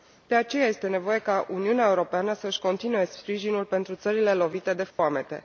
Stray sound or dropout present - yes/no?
yes